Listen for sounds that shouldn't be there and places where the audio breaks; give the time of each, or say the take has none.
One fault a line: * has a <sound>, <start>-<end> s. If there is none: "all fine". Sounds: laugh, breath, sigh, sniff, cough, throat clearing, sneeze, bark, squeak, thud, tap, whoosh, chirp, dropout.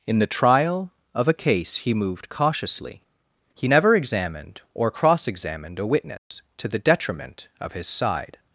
* has a dropout, 6.2-6.3 s